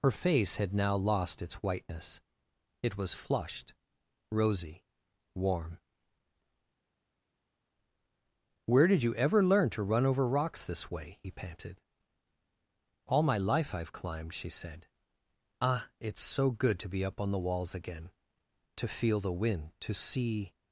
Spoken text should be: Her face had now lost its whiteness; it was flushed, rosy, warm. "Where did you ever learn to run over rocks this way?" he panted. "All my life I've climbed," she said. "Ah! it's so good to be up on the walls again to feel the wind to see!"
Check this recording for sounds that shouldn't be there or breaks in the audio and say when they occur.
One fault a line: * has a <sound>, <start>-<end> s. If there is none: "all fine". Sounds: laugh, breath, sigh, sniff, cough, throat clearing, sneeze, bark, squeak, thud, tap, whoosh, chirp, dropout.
all fine